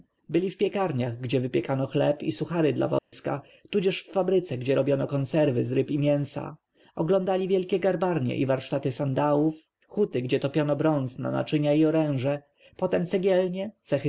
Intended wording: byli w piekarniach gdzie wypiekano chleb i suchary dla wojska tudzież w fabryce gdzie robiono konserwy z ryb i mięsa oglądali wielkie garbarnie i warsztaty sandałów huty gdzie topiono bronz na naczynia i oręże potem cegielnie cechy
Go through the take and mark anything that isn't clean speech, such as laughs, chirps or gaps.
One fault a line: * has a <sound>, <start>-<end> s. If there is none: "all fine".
* has a dropout, 3.0-3.1 s